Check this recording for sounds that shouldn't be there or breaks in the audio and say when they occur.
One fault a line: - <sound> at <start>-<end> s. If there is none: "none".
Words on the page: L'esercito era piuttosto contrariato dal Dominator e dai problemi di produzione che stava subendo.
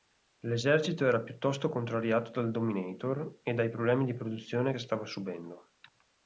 none